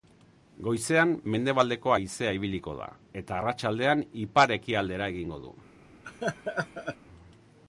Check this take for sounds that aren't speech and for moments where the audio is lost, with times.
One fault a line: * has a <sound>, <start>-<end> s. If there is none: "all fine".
* has a laugh, 6.0-7.0 s